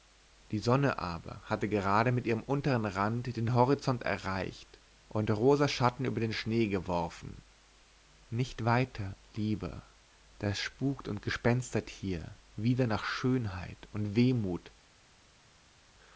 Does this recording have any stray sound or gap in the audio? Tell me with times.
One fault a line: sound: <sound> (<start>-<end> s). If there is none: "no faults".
no faults